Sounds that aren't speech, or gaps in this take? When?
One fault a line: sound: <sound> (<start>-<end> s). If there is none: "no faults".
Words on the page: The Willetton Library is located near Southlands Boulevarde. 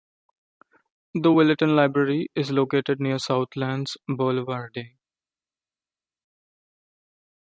no faults